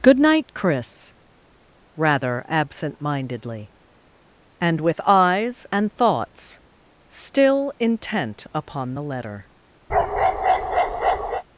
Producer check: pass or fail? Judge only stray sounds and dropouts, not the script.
fail